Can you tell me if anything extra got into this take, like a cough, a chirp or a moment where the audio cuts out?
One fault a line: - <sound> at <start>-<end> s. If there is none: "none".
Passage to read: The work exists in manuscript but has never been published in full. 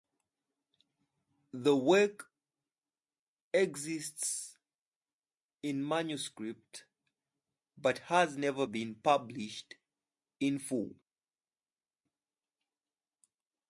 none